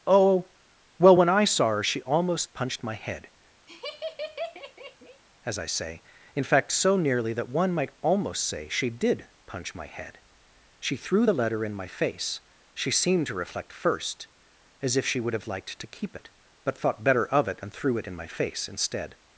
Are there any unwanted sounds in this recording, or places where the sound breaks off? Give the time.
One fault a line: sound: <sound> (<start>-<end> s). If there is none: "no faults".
sound: laugh (3.7-5.2 s)